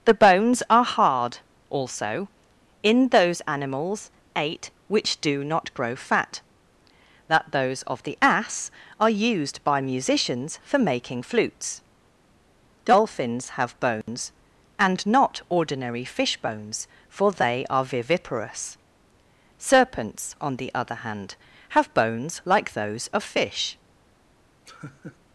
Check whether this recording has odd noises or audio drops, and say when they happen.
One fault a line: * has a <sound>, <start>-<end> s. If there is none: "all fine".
* has a dropout, 14.0-14.1 s
* has a laugh, 24.7-25.2 s